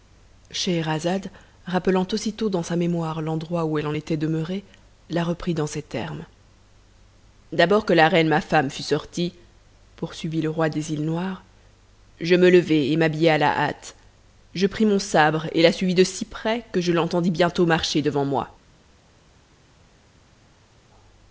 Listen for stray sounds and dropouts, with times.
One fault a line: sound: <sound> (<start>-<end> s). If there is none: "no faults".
no faults